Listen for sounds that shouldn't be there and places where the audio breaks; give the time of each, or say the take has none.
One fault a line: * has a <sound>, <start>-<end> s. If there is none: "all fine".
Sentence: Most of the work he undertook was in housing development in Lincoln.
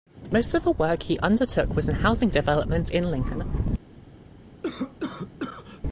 * has a cough, 4.6-5.8 s